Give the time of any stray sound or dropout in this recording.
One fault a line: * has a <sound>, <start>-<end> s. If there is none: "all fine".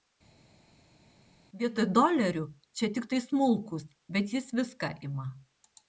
all fine